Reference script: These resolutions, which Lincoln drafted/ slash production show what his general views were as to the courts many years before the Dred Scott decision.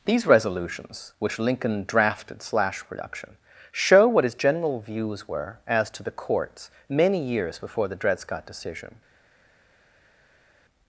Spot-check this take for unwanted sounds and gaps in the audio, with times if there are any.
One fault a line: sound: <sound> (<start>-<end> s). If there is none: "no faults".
no faults